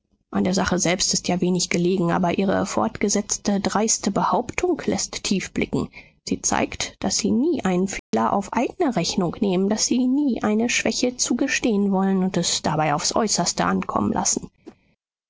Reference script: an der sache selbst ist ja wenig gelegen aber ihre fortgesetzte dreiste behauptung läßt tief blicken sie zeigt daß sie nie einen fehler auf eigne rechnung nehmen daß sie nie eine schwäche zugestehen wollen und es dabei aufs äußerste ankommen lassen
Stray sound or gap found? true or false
true